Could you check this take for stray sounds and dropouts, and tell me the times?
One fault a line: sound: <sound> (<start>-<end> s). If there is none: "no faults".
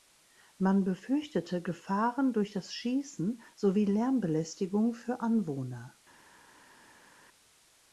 no faults